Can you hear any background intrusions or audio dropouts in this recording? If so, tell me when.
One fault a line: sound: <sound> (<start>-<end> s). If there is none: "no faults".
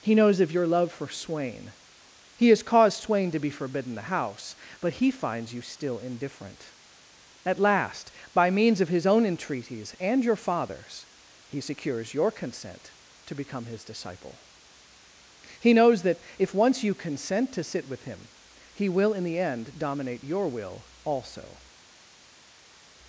no faults